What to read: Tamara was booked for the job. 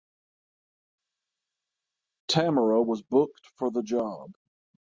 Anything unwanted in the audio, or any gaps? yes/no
no